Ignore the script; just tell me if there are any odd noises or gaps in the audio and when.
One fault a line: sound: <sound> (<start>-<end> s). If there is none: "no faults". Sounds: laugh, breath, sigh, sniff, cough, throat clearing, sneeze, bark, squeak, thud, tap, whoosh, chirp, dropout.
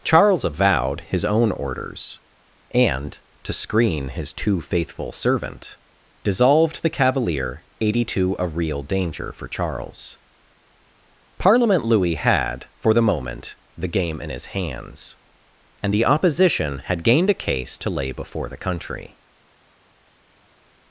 no faults